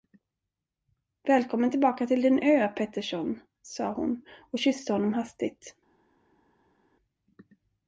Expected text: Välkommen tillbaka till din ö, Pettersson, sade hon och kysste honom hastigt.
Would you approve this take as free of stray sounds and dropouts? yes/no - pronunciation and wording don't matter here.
yes